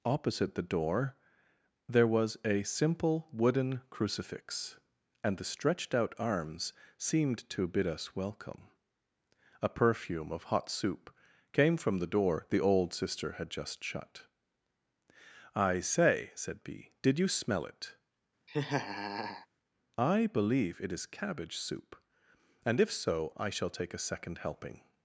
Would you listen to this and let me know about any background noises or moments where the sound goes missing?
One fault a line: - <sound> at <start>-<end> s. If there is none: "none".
- laugh at 18.5-19.5 s